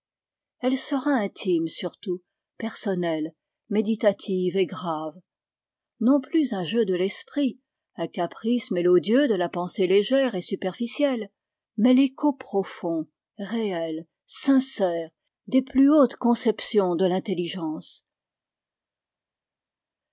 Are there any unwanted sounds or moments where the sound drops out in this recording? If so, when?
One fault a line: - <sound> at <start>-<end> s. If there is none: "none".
none